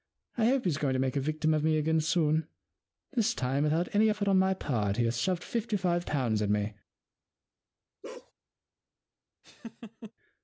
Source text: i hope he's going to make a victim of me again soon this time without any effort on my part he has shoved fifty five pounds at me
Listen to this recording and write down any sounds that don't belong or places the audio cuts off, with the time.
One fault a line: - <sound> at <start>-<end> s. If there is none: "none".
- bark at 8.0-8.3 s
- laugh at 9.4-10.1 s